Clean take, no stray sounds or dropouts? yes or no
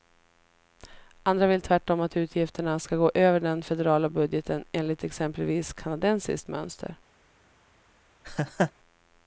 no